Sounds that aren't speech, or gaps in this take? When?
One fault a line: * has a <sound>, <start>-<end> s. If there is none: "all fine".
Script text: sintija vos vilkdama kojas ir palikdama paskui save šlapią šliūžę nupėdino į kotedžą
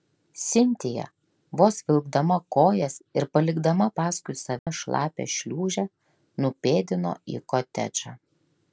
* has a dropout, 4.6-4.7 s